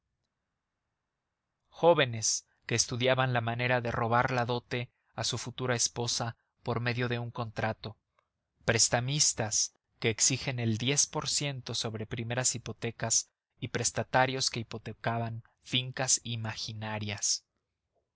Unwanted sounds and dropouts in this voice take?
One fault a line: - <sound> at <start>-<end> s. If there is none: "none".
none